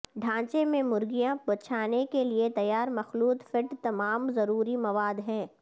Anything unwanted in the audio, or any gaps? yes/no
no